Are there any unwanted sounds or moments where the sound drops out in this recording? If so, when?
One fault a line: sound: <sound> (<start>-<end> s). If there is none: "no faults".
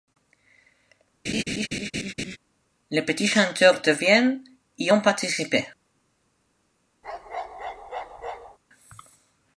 sound: laugh (1.2-2.4 s)
sound: bark (7.0-8.6 s)